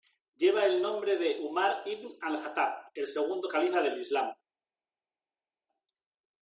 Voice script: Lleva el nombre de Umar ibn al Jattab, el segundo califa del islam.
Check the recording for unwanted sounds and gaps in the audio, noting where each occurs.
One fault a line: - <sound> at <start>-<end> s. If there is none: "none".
none